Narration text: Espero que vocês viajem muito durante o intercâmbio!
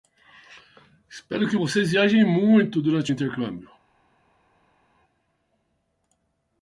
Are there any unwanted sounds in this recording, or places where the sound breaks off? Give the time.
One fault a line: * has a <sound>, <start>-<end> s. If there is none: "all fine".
all fine